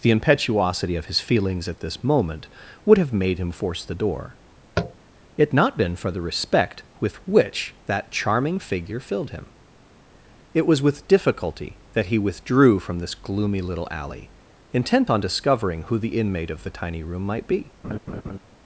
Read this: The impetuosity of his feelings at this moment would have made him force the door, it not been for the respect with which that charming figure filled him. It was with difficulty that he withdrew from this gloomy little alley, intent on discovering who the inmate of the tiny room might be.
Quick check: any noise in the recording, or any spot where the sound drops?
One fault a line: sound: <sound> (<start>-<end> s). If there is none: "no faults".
sound: tap (4.8-4.9 s)
sound: laugh (17.8-18.4 s)